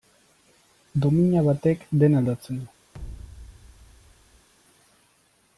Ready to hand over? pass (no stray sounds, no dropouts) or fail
fail